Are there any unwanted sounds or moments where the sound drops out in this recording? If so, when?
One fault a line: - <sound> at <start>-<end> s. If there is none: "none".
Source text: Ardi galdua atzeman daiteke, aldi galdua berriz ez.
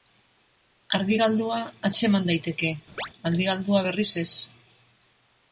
- chirp at 3.0-3.1 s